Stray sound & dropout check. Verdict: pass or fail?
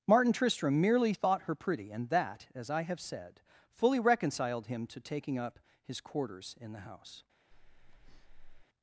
fail